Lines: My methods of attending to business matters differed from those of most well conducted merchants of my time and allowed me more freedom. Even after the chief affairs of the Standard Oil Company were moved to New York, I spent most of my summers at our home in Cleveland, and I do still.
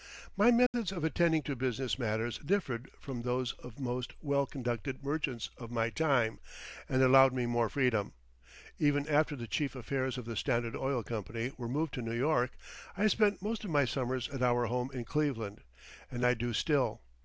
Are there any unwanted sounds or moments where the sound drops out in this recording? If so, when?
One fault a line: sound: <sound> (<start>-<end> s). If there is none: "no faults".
sound: dropout (0.7-0.7 s)